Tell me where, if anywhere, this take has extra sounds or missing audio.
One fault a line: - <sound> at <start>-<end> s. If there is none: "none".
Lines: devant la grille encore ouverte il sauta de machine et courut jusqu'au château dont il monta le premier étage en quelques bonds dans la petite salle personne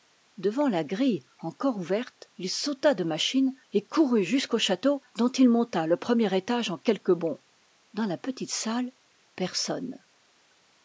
none